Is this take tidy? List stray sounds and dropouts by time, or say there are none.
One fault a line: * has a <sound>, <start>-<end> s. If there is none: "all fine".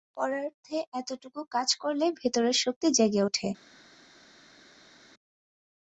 all fine